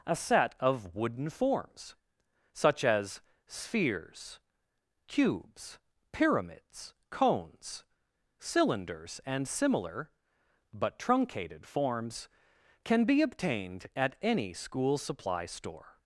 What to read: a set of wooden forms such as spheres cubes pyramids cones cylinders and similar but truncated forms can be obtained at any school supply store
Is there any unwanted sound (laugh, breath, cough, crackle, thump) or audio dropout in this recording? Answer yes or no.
no